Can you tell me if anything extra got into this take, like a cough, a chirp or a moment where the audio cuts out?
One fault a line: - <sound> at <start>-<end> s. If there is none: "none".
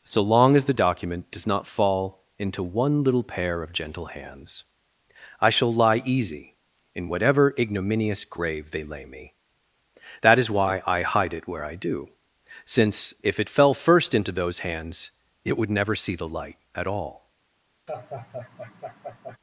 - laugh at 17.9-19.4 s